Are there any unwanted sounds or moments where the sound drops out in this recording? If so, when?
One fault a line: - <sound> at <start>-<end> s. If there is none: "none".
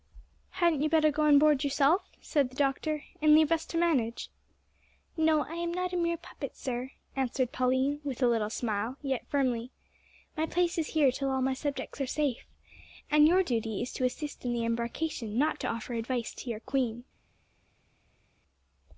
none